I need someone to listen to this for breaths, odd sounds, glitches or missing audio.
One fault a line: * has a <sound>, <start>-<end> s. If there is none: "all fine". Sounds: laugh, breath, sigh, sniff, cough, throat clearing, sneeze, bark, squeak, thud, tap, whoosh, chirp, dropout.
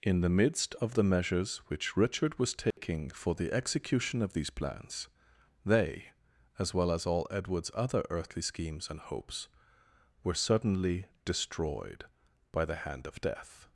* has a dropout, 2.7-2.8 s